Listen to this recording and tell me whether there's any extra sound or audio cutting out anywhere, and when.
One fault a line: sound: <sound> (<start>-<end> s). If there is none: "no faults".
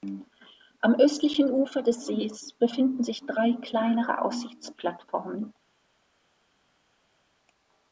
no faults